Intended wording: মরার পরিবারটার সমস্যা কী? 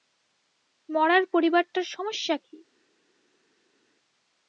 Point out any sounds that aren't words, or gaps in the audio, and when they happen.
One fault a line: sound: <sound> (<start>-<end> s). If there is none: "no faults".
no faults